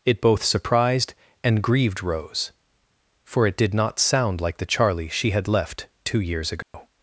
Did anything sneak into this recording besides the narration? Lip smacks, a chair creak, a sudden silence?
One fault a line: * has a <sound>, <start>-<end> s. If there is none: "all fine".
* has a dropout, 6.6-6.7 s